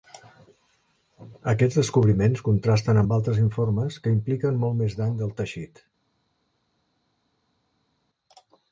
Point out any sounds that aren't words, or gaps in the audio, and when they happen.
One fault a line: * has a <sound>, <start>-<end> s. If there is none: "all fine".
all fine